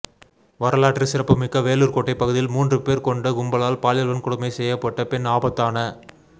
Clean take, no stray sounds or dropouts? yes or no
yes